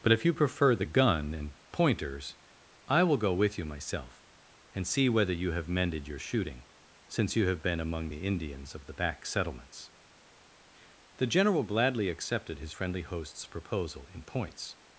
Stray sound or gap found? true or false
false